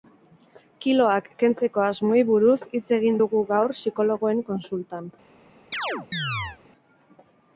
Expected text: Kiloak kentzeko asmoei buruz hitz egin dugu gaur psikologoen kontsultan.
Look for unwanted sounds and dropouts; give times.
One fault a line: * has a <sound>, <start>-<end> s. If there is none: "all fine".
* has a chirp, 5.7-6.6 s